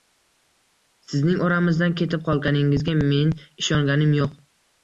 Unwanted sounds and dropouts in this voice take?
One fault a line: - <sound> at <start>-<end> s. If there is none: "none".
none